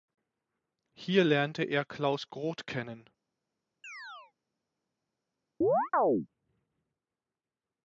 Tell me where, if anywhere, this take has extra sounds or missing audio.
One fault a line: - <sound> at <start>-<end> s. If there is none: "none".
- chirp at 3.8-4.3 s
- chirp at 5.6-6.3 s